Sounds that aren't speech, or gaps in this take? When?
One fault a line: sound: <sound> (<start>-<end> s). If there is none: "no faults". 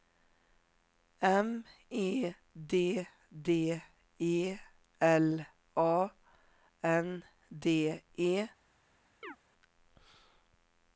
sound: chirp (9.2-9.4 s)